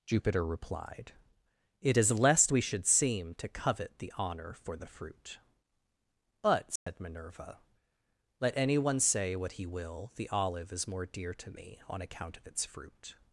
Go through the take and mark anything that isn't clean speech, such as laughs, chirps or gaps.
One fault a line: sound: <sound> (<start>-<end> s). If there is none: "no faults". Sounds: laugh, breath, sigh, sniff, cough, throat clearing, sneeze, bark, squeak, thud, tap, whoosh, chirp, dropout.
sound: dropout (6.8-6.9 s)